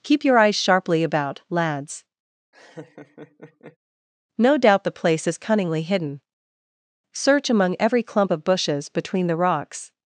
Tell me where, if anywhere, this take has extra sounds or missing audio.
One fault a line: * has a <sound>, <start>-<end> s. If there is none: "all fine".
* has a laugh, 2.5-3.8 s